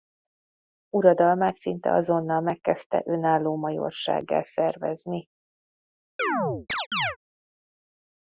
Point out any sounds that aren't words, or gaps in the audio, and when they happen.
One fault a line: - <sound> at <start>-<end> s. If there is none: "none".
- chirp at 6.2-7.2 s